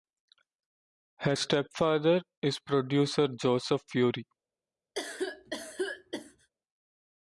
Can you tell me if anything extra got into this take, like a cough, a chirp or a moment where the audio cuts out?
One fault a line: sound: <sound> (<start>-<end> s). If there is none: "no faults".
sound: cough (4.9-6.5 s)